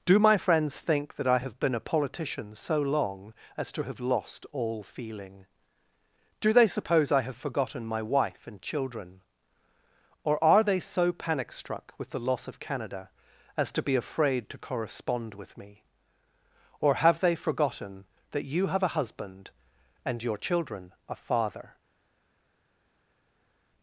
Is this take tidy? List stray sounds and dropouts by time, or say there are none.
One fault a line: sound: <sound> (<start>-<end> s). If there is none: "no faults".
no faults